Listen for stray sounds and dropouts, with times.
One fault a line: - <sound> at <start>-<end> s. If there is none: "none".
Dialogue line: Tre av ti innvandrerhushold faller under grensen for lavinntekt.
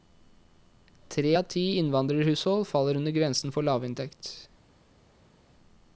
none